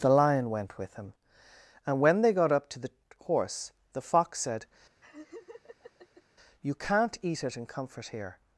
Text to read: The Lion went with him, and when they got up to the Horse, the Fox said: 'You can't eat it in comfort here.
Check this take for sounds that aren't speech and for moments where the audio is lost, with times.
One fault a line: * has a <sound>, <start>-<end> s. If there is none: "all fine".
* has a laugh, 5.0-6.2 s